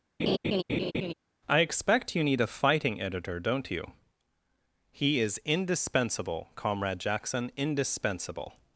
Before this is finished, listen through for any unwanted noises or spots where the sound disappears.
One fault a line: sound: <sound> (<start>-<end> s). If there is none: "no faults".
sound: laugh (0.2-1.1 s)